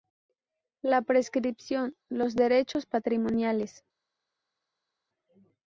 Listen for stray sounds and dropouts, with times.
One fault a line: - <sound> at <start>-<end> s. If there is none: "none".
none